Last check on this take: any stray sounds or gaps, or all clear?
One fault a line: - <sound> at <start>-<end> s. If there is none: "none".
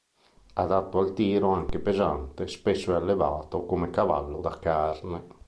none